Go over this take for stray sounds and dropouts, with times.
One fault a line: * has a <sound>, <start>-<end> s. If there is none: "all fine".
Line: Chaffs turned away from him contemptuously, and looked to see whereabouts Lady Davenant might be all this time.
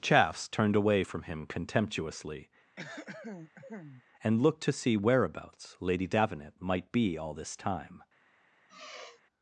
* has a throat clearing, 2.8-4.0 s
* has a sigh, 8.7-9.2 s